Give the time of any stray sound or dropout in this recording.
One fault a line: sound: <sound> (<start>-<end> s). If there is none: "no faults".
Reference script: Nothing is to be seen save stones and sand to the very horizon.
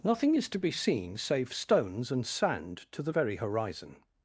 no faults